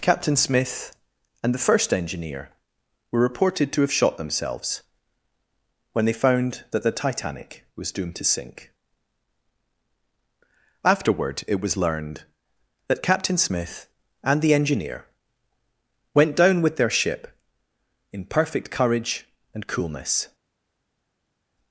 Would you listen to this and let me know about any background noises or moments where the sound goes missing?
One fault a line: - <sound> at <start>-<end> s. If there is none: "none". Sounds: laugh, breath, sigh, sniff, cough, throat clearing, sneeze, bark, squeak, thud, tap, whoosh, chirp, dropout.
none